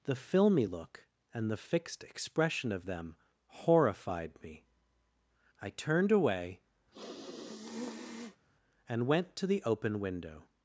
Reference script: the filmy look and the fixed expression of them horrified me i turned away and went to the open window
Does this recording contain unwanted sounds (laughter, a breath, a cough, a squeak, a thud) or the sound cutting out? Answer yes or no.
yes